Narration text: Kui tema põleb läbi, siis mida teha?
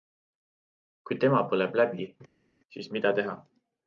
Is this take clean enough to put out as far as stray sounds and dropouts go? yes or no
yes